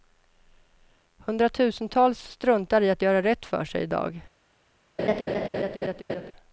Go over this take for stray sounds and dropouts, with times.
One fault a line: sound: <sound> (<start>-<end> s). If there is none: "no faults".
sound: laugh (5.0-6.3 s)